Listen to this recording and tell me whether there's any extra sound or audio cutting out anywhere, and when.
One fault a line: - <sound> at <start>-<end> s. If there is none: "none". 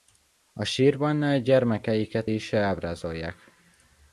none